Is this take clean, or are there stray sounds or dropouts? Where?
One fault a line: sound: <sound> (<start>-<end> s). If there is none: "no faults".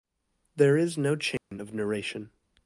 sound: dropout (1.4-1.5 s)